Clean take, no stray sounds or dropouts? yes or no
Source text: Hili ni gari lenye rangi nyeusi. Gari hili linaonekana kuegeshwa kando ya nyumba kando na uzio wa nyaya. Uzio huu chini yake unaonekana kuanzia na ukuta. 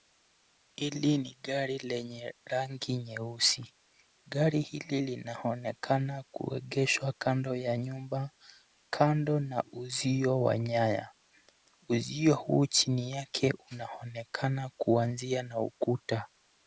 yes